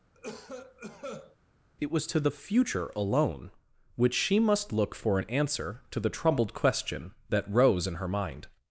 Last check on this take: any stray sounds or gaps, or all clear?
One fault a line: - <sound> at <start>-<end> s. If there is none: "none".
- cough at 0.1-1.4 s